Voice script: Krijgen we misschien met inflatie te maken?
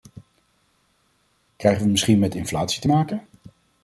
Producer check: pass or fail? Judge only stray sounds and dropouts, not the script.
pass